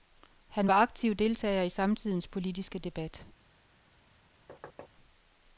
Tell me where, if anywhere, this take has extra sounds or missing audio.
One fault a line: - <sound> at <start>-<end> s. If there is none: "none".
- thud at 4.5-4.9 s